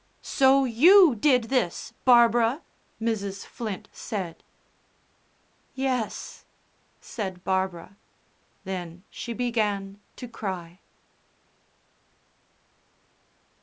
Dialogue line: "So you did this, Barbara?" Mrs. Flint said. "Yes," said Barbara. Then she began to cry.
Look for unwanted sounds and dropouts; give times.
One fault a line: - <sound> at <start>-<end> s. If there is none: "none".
none